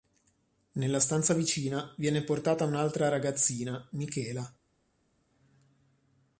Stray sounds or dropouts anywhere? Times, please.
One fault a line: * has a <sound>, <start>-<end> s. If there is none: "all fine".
all fine